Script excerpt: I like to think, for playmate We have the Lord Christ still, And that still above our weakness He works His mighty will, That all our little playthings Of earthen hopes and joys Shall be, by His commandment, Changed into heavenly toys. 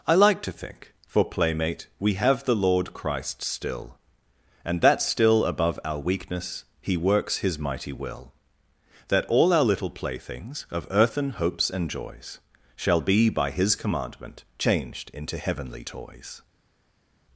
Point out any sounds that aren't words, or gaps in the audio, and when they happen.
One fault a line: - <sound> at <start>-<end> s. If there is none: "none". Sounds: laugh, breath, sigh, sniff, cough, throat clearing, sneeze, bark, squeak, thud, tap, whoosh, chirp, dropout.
none